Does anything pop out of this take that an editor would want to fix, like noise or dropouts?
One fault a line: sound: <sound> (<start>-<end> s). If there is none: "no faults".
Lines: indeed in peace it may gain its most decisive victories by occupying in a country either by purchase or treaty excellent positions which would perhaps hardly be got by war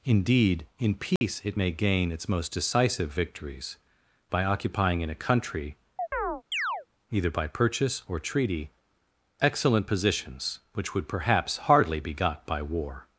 sound: dropout (1.2-1.2 s)
sound: chirp (6.0-6.9 s)